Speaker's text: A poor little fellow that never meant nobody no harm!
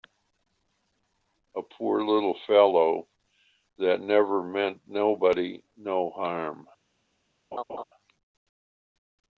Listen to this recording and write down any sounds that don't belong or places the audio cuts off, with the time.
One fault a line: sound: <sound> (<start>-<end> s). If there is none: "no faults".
sound: laugh (7.5-7.8 s)